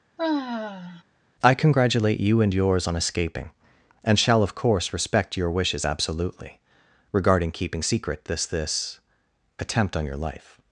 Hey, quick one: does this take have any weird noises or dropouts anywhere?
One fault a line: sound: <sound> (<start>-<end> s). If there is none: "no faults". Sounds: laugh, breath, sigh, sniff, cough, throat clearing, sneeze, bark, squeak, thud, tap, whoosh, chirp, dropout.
sound: sigh (0.2-1.0 s)